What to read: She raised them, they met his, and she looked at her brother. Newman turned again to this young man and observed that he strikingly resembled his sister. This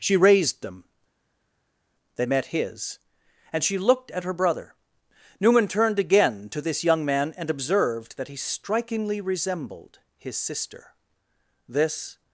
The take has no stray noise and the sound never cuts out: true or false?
true